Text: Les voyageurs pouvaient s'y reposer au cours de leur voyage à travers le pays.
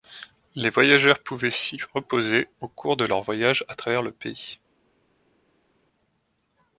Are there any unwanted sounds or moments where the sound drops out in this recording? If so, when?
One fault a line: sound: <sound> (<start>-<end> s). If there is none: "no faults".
no faults